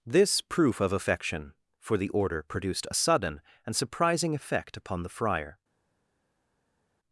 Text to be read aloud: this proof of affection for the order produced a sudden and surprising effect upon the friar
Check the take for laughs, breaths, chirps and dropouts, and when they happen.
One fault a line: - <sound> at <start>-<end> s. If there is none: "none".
none